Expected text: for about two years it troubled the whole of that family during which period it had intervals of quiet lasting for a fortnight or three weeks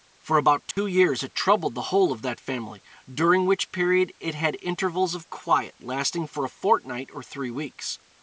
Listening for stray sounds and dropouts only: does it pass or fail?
fail